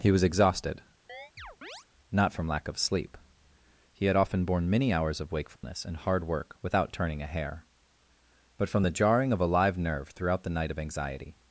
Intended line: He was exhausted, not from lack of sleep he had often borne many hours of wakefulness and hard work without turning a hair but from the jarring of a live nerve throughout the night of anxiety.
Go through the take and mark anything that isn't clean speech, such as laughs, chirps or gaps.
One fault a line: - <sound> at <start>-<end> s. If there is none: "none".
- chirp at 1.1-1.9 s
- dropout at 5.6-5.6 s